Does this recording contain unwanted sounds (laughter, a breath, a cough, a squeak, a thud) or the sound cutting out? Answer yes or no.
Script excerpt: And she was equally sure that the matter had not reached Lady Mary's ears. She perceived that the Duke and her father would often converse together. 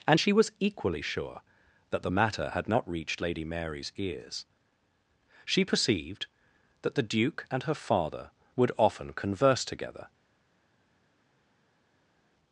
no